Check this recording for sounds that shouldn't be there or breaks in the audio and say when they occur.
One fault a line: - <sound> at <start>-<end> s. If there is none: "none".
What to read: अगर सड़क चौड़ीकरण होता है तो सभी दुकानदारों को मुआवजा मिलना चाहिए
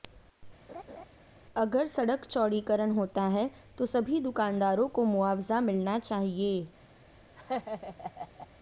- laugh at 0.7-1.1 s
- laugh at 7.4-8.5 s